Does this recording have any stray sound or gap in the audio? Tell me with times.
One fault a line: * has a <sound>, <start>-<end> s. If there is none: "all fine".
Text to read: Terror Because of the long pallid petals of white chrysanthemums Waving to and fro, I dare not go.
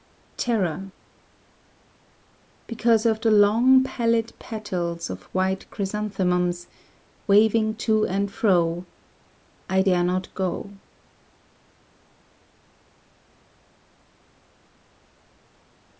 all fine